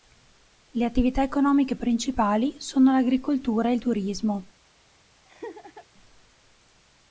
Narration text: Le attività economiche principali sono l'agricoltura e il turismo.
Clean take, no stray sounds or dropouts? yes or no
no